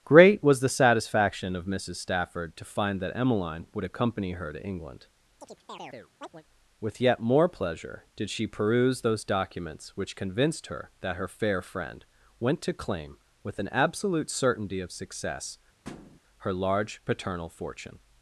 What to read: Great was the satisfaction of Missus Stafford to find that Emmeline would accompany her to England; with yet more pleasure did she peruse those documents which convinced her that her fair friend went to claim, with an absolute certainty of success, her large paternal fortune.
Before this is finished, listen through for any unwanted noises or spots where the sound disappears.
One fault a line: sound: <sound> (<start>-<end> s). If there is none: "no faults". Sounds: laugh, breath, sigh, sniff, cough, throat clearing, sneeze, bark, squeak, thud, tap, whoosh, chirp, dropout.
sound: chirp (5.4-6.4 s)
sound: thud (15.8-16.2 s)